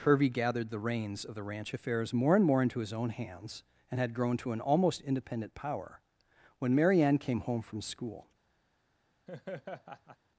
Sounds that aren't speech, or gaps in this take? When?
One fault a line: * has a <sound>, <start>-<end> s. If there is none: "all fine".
* has a laugh, 9.3-10.2 s